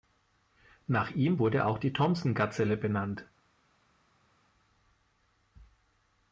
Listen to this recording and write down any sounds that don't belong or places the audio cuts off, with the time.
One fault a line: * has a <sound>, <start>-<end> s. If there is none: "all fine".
all fine